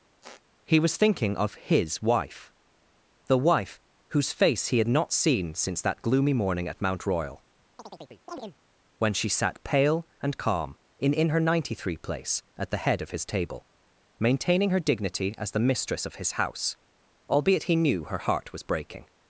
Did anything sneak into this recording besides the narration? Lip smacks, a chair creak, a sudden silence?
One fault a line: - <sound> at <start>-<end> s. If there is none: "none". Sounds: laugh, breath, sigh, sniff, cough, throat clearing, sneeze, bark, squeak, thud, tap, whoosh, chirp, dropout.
- squeak at 0.2-0.4 s
- chirp at 7.8-8.6 s